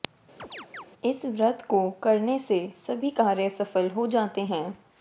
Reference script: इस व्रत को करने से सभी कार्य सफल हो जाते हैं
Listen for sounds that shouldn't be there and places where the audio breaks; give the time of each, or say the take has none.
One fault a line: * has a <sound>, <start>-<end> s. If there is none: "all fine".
* has a chirp, 0.4-0.9 s